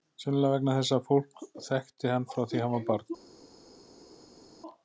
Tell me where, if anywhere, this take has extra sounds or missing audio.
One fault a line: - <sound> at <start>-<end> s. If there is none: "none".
none